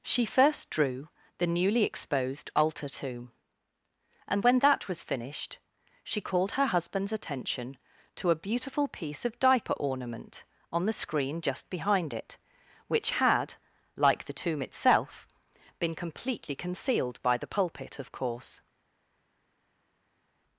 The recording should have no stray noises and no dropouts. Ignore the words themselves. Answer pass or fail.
pass